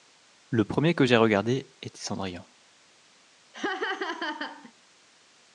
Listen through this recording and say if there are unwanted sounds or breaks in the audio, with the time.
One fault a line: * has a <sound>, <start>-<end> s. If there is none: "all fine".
* has a laugh, 3.5-4.7 s